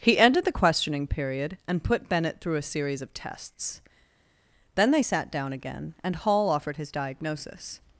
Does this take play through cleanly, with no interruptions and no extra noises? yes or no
yes